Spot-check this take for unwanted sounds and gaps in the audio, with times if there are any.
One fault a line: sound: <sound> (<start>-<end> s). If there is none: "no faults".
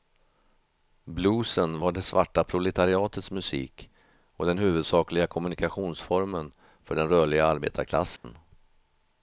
sound: dropout (8.2-8.2 s)